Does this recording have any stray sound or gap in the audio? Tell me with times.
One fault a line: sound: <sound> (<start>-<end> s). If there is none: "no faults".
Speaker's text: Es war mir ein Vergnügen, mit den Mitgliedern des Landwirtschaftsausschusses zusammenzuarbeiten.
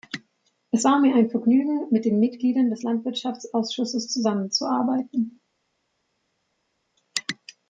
no faults